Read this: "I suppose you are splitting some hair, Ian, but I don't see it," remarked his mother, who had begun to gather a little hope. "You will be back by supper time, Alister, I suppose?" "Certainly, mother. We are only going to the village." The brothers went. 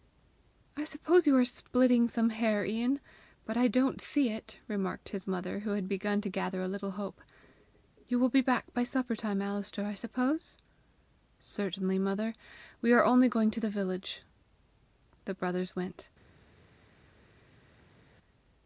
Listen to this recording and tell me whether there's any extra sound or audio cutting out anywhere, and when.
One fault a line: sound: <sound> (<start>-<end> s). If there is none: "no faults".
no faults